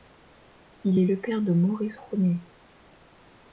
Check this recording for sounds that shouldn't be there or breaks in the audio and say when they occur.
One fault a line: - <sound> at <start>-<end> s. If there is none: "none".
none